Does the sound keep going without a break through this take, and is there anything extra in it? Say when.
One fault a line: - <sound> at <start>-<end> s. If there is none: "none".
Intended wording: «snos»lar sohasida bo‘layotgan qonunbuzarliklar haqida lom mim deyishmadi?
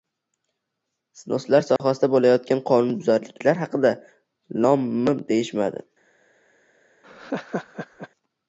- dropout at 1.8-1.8 s
- laugh at 7.0-8.1 s